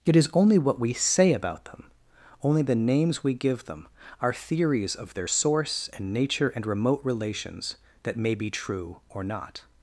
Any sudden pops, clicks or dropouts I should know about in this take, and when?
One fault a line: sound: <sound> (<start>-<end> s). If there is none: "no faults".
no faults